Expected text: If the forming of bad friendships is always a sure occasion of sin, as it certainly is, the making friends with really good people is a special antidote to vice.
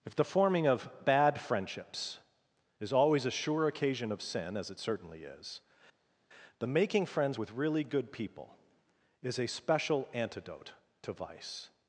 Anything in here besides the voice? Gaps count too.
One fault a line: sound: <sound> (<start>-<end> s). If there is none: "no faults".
no faults